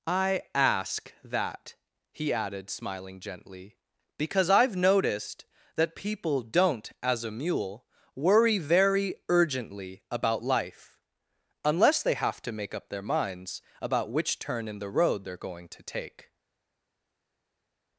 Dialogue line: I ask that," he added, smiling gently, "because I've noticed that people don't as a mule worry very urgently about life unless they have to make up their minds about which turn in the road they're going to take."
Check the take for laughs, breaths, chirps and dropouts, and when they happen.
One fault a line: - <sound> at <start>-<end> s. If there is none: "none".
none